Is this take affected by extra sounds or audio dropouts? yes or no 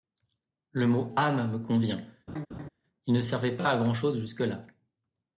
yes